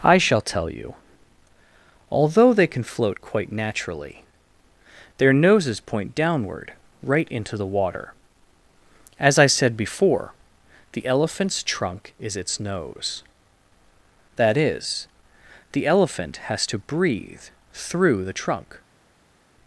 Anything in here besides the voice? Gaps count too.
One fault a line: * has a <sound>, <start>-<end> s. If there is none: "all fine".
all fine